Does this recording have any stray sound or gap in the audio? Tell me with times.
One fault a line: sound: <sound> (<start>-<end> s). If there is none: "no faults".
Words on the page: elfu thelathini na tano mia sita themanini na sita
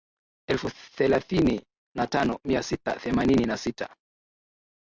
no faults